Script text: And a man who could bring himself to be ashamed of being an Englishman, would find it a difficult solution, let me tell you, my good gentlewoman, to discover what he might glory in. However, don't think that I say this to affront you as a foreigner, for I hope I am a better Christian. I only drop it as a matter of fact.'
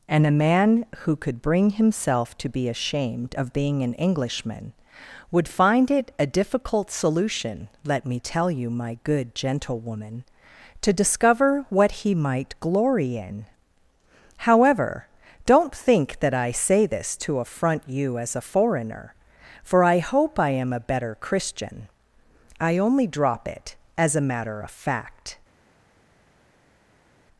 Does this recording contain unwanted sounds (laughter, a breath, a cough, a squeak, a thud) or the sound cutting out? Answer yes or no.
no